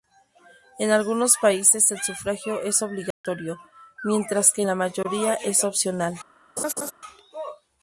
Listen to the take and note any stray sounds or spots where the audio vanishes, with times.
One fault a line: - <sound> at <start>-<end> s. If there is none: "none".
- dropout at 3.1-3.2 s
- laugh at 6.6-6.9 s